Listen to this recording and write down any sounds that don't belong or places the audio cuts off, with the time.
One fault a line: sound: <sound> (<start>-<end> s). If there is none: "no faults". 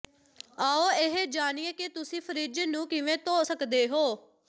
no faults